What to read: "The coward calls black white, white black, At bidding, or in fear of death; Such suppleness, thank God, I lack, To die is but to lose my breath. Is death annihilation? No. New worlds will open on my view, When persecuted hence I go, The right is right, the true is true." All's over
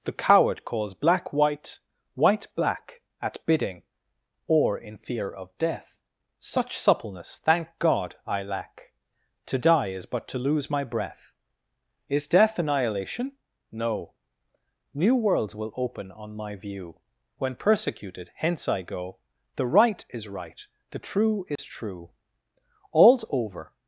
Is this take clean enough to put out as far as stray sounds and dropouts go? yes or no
no